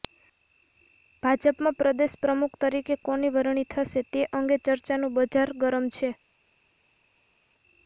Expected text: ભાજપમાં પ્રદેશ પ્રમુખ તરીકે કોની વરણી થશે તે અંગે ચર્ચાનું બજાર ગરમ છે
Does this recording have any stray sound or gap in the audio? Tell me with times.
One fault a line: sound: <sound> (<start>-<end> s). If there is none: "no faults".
no faults